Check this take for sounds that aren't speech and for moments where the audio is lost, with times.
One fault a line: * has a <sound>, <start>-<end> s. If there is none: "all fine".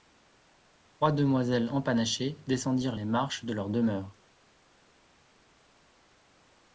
all fine